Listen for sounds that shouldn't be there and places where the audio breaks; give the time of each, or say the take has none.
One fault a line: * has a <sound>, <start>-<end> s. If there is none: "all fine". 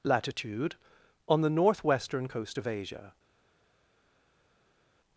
all fine